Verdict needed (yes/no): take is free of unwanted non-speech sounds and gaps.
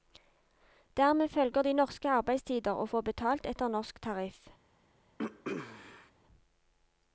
no